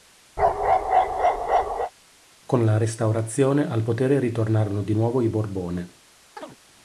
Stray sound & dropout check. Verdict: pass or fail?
fail